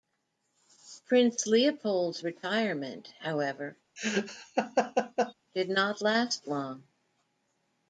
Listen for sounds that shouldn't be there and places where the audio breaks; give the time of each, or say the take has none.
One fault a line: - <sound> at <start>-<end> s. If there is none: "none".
- laugh at 4.0-5.3 s